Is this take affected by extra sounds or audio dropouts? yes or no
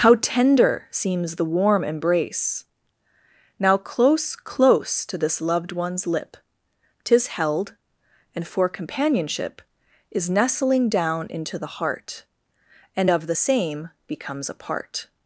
no